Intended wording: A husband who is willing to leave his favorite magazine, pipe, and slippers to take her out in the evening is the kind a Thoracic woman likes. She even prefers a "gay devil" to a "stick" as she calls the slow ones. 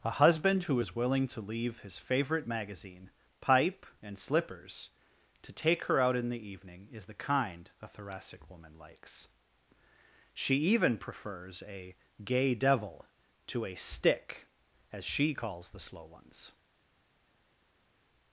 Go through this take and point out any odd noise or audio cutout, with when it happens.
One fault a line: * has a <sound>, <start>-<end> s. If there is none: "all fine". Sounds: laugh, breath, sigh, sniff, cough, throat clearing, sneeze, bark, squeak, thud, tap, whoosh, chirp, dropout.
all fine